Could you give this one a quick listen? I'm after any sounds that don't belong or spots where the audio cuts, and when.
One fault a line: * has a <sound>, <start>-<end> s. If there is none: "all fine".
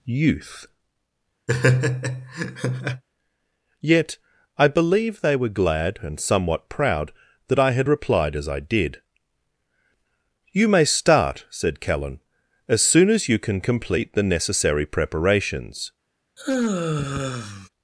* has a laugh, 1.5-3.0 s
* has a sigh, 16.4-17.7 s